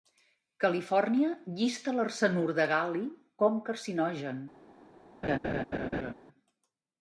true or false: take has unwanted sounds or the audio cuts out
true